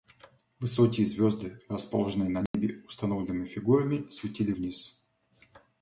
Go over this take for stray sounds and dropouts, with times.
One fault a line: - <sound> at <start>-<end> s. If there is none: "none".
- dropout at 2.5-2.5 s